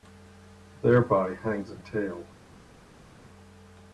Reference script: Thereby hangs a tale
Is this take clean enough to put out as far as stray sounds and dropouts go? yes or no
yes